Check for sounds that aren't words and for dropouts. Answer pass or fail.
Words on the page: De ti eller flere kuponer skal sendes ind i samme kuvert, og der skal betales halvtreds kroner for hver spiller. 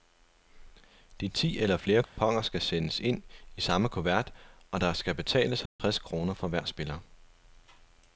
fail